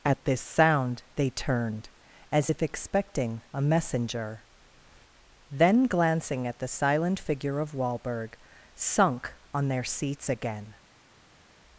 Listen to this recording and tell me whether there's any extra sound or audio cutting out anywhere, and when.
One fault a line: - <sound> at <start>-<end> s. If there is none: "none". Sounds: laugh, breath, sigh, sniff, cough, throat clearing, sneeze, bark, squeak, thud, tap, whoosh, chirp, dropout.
none